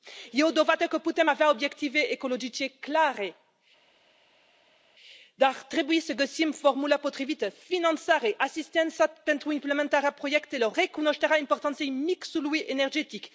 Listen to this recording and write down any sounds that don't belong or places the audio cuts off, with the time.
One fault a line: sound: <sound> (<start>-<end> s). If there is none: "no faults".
no faults